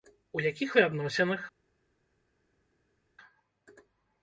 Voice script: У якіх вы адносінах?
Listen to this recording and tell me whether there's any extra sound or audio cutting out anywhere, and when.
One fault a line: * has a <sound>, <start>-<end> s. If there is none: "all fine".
all fine